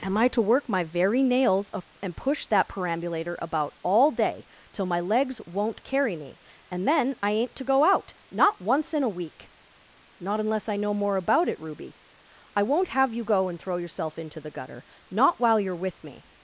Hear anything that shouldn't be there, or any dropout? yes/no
no